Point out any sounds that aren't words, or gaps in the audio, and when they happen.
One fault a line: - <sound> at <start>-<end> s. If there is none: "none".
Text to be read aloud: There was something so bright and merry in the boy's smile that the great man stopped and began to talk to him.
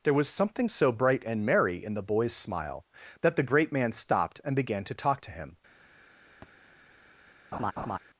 - thud at 6.4-6.5 s
- laugh at 7.5-8.0 s